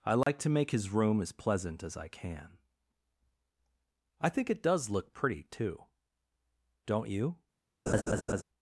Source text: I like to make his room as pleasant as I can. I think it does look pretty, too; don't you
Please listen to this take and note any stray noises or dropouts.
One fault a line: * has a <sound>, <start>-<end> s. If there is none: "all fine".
* has a dropout, 0.2-0.3 s
* has a laugh, 7.9-8.4 s